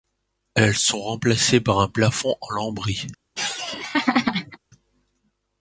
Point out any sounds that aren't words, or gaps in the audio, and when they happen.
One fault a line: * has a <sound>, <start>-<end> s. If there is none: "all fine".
* has a laugh, 3.4-4.6 s